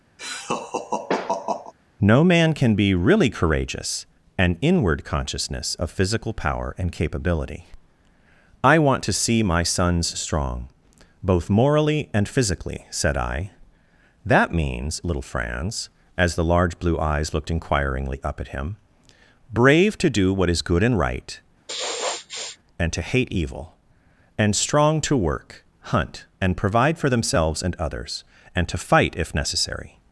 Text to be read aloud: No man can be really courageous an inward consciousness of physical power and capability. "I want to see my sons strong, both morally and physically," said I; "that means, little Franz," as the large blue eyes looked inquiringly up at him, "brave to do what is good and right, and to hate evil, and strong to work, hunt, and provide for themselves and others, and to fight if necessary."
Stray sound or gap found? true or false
true